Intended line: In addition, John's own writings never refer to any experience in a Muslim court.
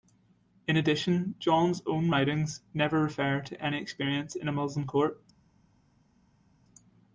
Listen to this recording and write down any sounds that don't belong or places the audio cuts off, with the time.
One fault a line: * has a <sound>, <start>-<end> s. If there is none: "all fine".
all fine